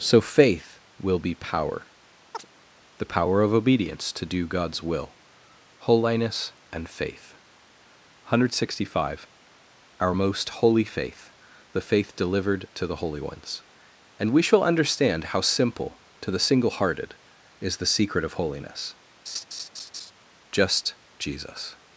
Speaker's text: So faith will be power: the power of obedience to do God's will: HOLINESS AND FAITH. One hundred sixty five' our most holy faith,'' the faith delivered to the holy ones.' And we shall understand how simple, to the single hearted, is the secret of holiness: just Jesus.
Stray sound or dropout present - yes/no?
yes